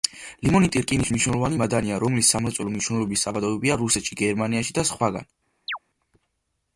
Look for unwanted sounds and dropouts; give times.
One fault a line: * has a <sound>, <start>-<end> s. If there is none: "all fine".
* has a chirp, 5.7-5.8 s